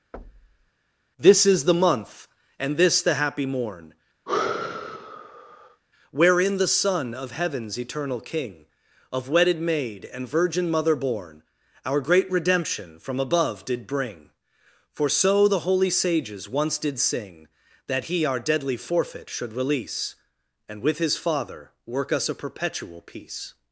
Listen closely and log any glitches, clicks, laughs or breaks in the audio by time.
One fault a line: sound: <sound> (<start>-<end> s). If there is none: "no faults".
sound: thud (0.1-0.7 s)
sound: sigh (4.3-5.8 s)